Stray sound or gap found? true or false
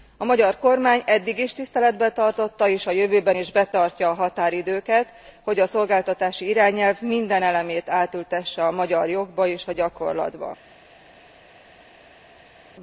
false